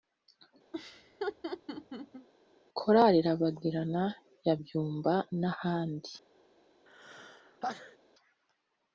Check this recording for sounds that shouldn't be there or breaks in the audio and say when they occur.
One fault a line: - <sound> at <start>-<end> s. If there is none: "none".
- laugh at 0.7-2.3 s
- sneeze at 6.9-8.0 s